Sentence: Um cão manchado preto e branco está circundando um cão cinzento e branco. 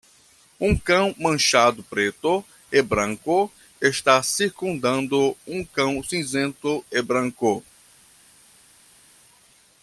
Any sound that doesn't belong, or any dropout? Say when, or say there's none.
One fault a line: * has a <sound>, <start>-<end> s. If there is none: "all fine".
all fine